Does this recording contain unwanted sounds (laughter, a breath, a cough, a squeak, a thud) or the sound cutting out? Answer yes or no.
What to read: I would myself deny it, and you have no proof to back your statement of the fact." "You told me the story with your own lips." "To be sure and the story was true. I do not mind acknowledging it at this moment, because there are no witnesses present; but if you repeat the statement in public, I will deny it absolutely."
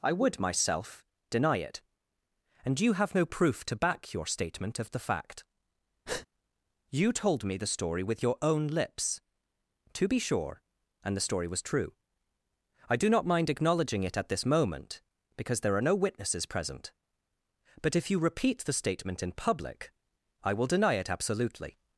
yes